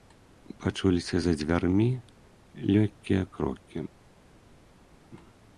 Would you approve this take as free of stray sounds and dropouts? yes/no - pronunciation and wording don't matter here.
yes